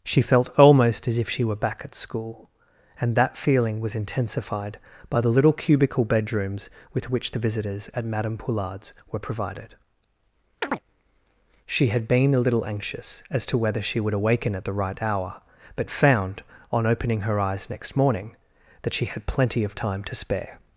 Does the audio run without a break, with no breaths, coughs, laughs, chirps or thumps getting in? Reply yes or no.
no